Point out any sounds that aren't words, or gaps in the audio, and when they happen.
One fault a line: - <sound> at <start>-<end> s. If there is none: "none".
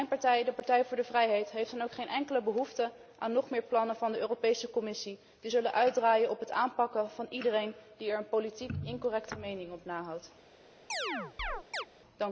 - chirp at 10.9-11.9 s